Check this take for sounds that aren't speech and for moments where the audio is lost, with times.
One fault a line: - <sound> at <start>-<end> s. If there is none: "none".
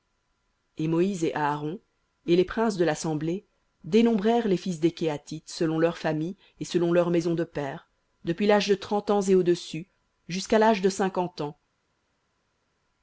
none